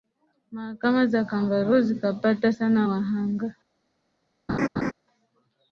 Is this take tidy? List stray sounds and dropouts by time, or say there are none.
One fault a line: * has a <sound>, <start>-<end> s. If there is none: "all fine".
* has a laugh, 4.5-4.9 s